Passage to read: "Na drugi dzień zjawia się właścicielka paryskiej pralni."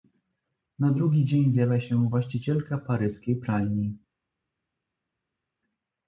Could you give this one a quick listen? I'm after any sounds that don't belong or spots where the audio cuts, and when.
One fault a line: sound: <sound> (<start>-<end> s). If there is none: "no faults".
no faults